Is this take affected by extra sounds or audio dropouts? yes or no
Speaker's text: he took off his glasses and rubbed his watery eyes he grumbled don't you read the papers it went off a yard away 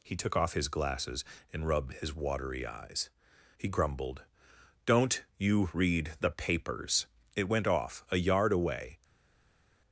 no